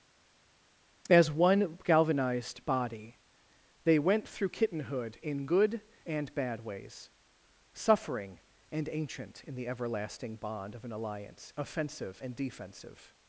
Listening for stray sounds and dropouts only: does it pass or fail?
pass